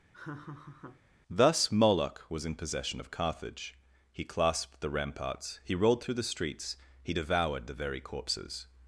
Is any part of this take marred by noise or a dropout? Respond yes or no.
yes